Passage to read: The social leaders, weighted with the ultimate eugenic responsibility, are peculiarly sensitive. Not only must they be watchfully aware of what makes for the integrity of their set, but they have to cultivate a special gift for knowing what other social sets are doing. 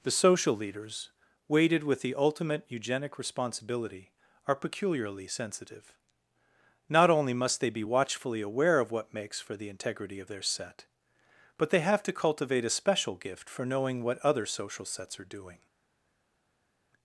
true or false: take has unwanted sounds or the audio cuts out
false